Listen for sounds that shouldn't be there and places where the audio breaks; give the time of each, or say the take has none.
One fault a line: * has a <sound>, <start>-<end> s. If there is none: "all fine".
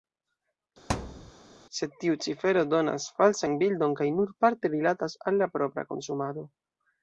* has a thud, 0.9-1.3 s